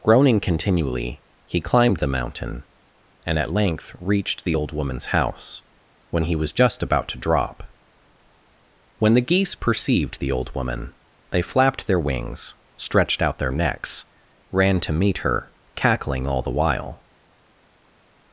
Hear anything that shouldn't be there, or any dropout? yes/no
no